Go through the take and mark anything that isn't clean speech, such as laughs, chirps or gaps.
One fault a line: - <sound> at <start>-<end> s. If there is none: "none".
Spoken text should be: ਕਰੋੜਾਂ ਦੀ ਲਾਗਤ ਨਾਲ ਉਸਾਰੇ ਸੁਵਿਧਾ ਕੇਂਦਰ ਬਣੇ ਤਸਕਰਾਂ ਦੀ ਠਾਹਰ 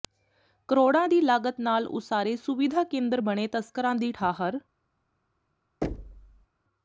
- thud at 5.8-6.5 s